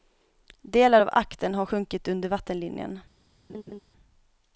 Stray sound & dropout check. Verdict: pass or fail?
fail